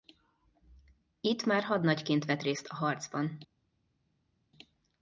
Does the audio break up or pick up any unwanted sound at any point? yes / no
no